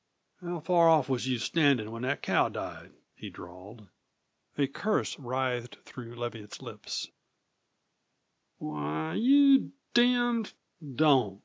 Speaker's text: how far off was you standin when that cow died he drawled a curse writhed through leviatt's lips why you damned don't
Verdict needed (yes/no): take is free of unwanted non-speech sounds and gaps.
yes